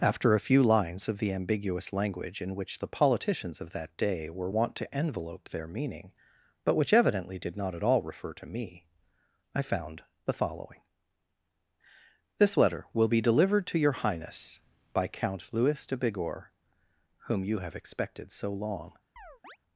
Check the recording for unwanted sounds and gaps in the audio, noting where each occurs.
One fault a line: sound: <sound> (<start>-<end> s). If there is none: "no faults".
sound: chirp (19.2-19.6 s)